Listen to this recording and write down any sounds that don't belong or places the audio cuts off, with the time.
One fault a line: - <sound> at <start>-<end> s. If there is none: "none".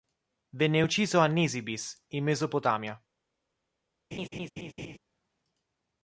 - laugh at 4.1-5.0 s